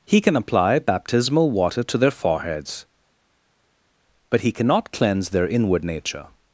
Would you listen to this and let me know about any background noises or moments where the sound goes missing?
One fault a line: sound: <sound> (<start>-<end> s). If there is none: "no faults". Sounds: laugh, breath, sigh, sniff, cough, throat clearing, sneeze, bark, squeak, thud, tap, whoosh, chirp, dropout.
no faults